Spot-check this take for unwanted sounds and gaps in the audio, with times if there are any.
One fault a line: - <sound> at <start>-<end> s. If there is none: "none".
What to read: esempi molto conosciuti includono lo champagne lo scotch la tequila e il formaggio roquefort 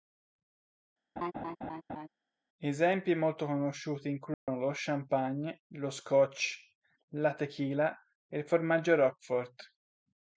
- laugh at 1.2-2.1 s
- dropout at 4.3-4.5 s